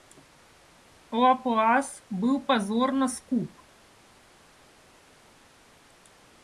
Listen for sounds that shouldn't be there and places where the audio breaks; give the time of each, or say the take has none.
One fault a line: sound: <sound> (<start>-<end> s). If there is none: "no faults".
no faults